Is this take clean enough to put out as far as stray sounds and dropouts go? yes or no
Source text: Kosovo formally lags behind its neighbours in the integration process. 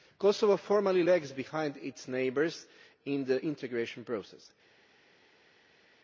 yes